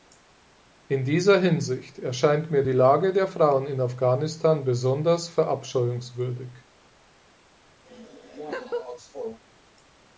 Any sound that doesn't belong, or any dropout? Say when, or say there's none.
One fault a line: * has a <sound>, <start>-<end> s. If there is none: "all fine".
* has a laugh, 7.9-9.4 s